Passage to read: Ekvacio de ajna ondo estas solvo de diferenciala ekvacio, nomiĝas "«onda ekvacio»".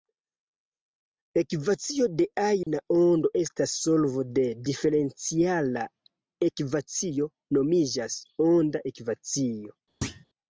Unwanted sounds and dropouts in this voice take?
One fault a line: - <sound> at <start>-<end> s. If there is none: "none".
- dropout at 2.6-2.7 s
- thud at 10.0-10.3 s